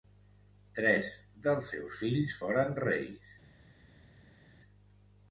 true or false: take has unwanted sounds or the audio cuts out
false